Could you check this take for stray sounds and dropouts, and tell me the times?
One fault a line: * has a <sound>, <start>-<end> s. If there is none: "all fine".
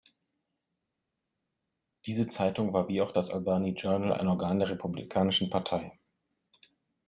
all fine